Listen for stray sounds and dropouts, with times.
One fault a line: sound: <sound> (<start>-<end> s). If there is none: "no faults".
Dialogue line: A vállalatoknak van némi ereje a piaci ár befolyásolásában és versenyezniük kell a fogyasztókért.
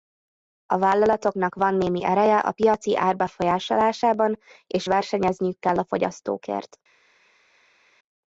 no faults